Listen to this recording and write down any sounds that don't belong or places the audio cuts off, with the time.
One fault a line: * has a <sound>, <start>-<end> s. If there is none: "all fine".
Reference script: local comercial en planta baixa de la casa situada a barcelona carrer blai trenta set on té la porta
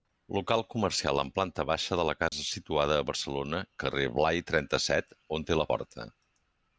* has a dropout, 2.3-2.3 s